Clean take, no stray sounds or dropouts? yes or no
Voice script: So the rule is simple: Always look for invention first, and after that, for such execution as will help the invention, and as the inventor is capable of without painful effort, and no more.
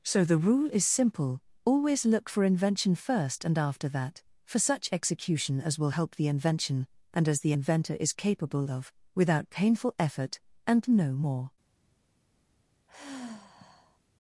no